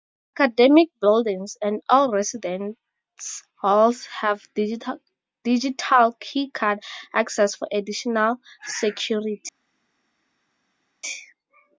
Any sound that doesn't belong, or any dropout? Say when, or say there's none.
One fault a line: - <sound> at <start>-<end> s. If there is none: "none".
none